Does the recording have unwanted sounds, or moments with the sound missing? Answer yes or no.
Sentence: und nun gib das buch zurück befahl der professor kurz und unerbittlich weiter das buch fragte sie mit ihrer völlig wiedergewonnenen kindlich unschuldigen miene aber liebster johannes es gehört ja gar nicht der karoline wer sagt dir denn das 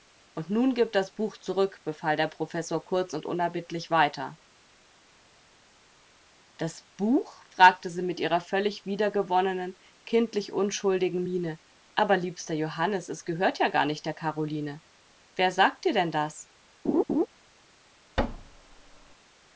yes